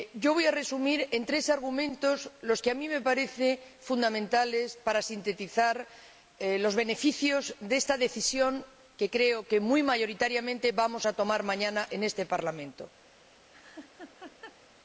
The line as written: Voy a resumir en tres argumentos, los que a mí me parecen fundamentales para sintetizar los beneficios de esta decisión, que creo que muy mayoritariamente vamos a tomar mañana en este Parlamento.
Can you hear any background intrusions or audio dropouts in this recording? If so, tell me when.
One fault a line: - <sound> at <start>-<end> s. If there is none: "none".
- laugh at 13.5-14.6 s